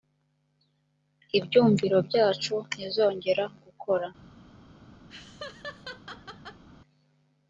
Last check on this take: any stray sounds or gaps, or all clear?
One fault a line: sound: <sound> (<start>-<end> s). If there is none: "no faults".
sound: laugh (5.1-6.6 s)